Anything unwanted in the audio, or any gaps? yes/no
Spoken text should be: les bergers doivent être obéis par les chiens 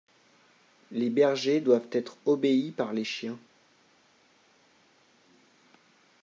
no